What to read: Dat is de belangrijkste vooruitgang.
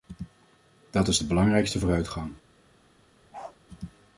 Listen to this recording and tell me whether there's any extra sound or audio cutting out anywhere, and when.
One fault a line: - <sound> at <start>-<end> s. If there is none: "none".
- bark at 3.3-3.6 s